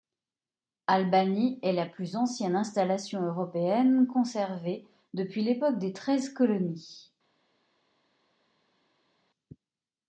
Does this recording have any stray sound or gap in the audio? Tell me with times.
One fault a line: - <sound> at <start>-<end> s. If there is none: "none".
none